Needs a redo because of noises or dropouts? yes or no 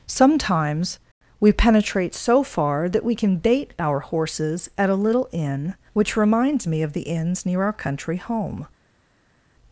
no